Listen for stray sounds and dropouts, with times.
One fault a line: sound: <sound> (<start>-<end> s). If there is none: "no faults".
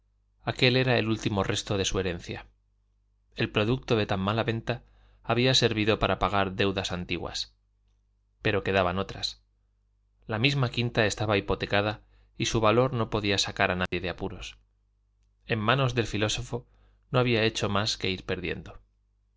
sound: dropout (13.9-13.9 s)